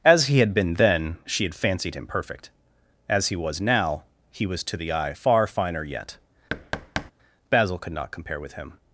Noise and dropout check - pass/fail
fail